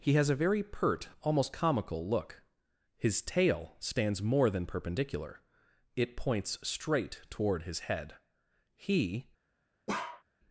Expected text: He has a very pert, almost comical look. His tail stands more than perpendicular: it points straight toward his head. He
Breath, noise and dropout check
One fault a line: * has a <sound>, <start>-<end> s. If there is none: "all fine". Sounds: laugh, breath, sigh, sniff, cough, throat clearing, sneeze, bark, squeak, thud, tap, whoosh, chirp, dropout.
* has a bark, 9.9-10.2 s